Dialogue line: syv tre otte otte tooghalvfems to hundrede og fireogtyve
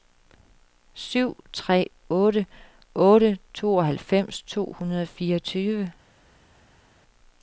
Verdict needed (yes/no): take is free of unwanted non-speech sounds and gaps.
yes